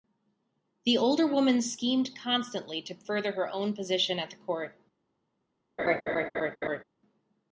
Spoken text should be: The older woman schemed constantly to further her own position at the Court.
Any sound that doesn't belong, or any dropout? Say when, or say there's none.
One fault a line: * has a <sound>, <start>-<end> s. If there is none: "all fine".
* has a laugh, 5.8-6.8 s